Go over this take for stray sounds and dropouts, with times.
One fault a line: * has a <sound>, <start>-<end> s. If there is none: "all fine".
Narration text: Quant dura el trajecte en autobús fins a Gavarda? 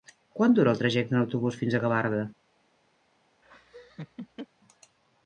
* has a laugh, 3.4-4.5 s